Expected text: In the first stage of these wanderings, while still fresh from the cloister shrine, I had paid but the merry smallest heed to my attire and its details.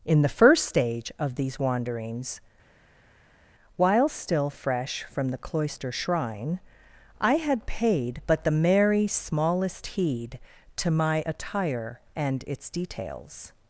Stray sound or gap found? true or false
false